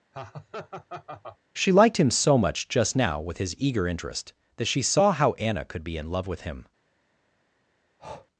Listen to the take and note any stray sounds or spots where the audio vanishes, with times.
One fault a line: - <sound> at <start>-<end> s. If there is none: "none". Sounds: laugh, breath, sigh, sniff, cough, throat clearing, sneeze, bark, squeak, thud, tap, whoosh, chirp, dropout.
- laugh at 0.1-1.4 s
- breath at 8.0-8.3 s